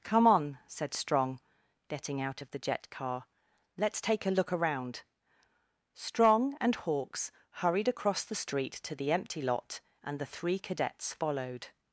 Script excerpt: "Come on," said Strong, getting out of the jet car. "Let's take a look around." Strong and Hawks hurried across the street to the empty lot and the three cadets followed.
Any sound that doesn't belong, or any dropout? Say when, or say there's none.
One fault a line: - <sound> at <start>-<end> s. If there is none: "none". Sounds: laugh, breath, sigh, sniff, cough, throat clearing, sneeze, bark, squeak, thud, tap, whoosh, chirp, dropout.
none